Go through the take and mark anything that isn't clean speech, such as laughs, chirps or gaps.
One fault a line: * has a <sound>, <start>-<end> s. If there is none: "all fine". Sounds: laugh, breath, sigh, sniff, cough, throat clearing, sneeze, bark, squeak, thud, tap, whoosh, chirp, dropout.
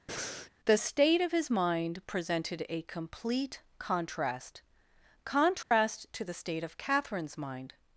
* has a breath, 0.1-0.5 s
* has a dropout, 5.6-5.7 s